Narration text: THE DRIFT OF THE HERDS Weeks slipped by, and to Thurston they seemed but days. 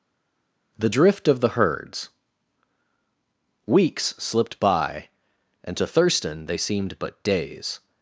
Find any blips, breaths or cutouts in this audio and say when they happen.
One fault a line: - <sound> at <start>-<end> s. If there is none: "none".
none